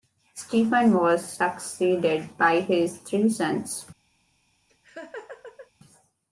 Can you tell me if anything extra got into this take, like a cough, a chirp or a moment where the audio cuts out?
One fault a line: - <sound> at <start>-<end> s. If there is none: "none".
- laugh at 4.7-5.7 s